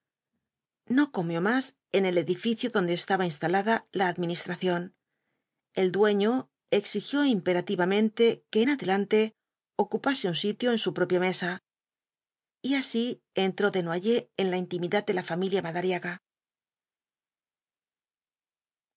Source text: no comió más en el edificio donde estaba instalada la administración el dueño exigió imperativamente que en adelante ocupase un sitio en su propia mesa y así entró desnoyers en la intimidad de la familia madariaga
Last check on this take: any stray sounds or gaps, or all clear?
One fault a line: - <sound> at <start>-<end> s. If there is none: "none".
none